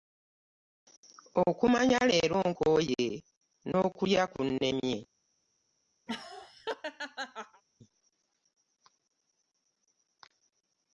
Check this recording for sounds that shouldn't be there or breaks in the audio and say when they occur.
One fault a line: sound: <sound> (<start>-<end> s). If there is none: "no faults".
sound: laugh (6.1-7.6 s)